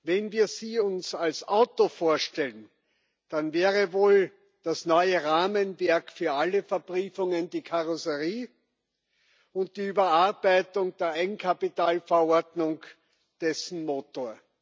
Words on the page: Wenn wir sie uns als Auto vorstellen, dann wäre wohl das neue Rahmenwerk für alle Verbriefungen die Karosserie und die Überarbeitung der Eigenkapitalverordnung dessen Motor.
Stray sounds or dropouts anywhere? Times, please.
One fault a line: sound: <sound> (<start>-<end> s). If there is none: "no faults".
no faults